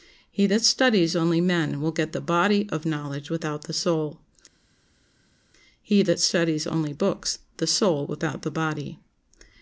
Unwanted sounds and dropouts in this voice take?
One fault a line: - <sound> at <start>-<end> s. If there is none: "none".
none